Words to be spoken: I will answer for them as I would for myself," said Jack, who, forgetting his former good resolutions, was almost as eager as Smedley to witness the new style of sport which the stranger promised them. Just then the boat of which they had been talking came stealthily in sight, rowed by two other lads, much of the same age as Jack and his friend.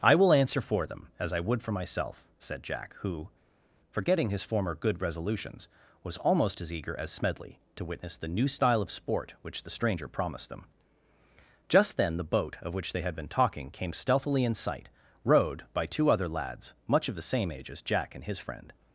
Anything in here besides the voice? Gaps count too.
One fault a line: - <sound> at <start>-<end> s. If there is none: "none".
none